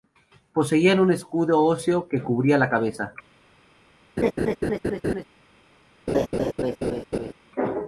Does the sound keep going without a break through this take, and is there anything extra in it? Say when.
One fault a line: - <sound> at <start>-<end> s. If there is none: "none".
- laugh at 4.2-5.2 s
- laugh at 6.1-7.3 s